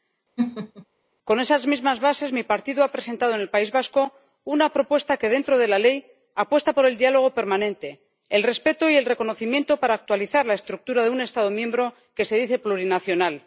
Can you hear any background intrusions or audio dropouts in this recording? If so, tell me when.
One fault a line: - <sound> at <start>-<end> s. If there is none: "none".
- laugh at 0.4-0.9 s